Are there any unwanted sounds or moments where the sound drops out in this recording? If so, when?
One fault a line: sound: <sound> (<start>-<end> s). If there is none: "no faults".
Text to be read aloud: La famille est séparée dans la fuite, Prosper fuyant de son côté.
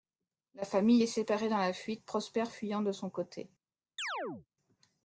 sound: chirp (4.0-4.5 s)